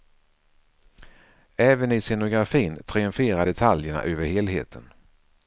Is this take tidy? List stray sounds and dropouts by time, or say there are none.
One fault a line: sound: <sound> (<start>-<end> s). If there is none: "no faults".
no faults